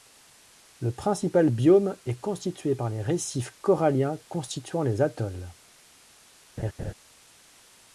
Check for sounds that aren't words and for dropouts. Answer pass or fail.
fail